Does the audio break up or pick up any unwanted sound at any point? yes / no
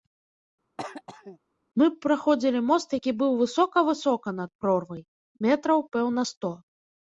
yes